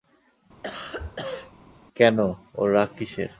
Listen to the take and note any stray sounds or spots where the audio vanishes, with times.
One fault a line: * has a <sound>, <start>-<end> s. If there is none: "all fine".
* has a cough, 0.6-1.5 s